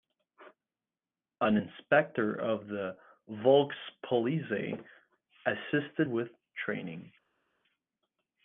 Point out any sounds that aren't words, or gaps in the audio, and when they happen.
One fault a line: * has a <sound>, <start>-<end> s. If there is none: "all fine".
all fine